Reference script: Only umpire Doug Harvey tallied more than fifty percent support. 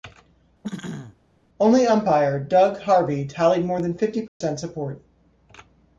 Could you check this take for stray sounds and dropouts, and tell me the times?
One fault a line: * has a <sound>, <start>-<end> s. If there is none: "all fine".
* has a throat clearing, 0.6-1.2 s
* has a dropout, 4.3-4.4 s